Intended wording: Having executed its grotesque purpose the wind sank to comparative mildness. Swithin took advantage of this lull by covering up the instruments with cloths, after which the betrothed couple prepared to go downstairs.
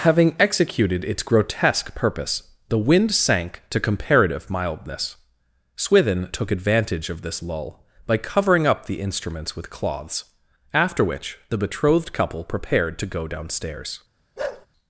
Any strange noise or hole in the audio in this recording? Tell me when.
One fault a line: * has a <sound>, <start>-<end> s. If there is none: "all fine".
* has a bark, 14.4-14.7 s